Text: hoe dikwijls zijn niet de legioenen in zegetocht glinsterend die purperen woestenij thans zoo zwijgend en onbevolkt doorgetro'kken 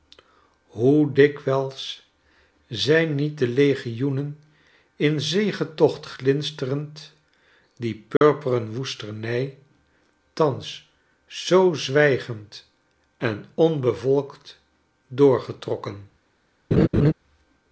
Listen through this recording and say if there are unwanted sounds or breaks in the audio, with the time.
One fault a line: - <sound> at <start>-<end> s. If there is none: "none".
- dropout at 8.2-8.2 s
- laugh at 16.7-17.1 s